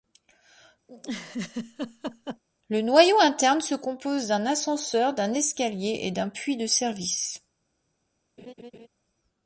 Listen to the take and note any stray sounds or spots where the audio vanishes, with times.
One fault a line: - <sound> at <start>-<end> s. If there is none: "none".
- laugh at 0.9-2.4 s
- laugh at 8.4-8.9 s